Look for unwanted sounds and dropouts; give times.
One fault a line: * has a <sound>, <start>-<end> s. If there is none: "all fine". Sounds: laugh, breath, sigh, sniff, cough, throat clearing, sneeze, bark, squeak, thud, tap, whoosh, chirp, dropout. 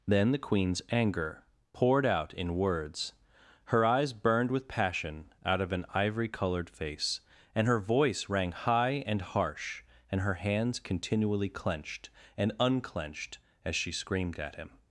all fine